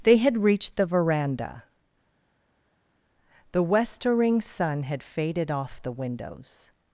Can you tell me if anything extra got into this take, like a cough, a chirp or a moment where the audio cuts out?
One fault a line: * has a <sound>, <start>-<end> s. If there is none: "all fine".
all fine